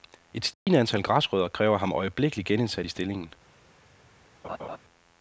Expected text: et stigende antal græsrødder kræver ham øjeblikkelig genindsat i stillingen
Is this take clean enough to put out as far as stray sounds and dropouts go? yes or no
no